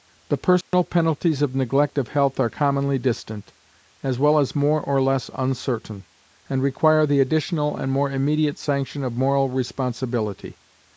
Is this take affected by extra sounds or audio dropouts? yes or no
yes